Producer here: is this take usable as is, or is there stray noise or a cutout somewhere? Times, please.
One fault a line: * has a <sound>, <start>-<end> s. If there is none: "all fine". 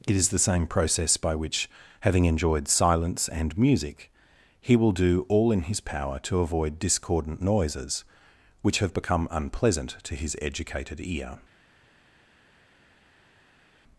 all fine